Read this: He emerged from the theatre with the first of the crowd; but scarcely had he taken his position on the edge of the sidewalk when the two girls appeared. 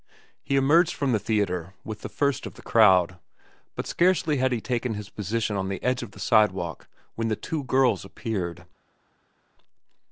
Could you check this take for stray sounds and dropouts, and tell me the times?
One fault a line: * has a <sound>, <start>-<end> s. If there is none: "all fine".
all fine